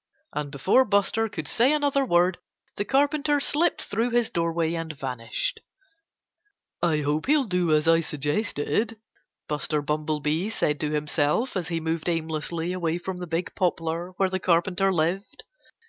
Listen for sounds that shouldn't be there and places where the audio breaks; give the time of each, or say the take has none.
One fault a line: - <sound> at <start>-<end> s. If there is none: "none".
none